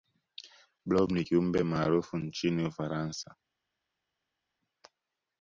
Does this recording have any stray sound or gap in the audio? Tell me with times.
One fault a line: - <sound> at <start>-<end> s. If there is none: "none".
none